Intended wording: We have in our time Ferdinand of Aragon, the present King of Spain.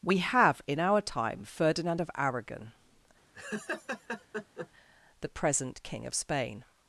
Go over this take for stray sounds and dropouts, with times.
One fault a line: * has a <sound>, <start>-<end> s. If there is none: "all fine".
* has a laugh, 3.3-4.7 s